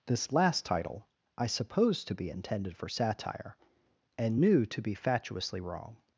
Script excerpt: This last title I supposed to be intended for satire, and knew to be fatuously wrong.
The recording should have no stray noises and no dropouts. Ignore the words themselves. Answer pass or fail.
pass